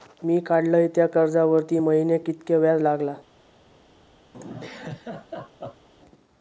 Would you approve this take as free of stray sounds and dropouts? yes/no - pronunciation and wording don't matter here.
no